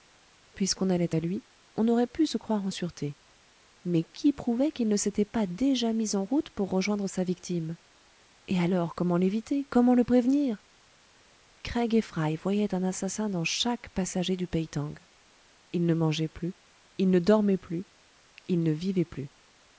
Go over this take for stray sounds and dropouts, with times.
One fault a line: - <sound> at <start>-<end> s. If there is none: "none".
none